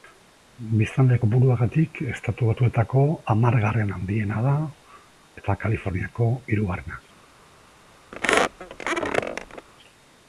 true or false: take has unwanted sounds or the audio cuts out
true